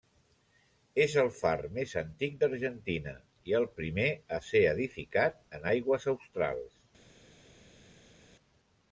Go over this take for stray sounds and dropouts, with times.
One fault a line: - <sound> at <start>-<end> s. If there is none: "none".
none